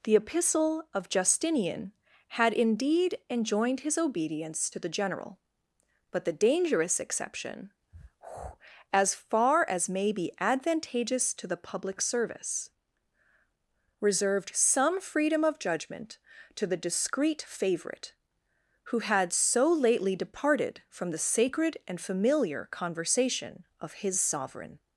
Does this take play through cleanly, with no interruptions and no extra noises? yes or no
yes